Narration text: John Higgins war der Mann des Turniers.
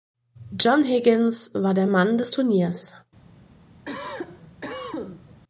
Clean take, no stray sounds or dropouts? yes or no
no